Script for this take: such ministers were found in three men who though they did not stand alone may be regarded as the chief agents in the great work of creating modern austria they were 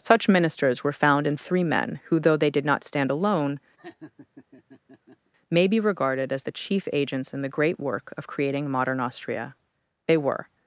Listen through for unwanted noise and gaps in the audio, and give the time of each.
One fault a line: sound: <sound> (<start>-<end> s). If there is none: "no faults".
sound: laugh (3.8-5.3 s)